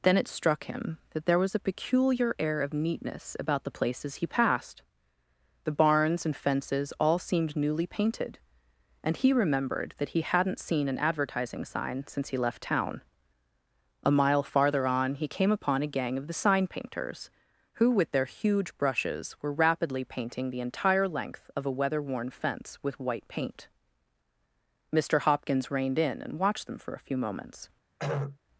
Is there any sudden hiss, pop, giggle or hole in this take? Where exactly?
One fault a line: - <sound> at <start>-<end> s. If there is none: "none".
- throat clearing at 28.0-28.4 s